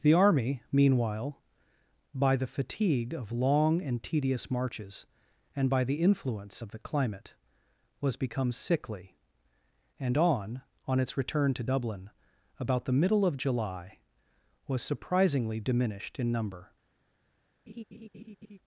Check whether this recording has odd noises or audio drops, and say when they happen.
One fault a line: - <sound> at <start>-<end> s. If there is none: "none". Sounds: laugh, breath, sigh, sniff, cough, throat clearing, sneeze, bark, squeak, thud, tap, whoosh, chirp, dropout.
- laugh at 17.7-18.6 s